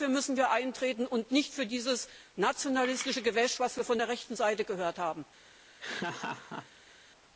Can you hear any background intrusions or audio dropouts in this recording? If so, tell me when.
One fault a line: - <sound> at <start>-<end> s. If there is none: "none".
- laugh at 5.8-6.9 s